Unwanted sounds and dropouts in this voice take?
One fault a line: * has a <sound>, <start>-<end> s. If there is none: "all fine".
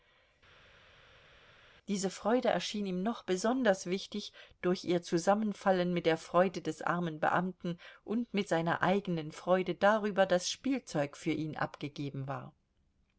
all fine